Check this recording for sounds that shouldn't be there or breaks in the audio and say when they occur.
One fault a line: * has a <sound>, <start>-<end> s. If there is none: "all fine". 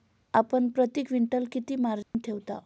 * has a dropout, 2.0-2.1 s